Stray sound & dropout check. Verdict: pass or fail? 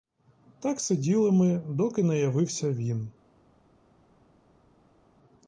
pass